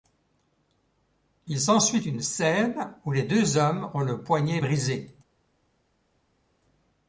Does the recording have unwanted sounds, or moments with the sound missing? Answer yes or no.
no